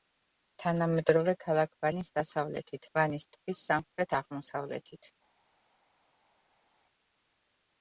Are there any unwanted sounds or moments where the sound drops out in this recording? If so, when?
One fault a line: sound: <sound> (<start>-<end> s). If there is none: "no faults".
no faults